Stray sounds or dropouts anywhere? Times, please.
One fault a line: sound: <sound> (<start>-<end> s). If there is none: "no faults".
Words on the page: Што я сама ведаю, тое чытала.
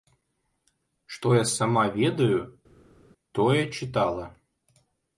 no faults